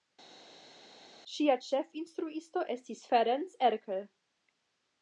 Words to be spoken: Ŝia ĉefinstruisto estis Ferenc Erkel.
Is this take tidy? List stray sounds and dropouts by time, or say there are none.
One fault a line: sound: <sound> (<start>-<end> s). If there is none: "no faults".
no faults